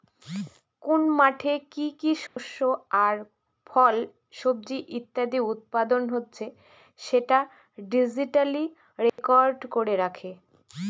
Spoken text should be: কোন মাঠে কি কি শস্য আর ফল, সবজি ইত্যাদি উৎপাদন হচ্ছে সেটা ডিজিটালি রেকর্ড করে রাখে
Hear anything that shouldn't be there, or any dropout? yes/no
yes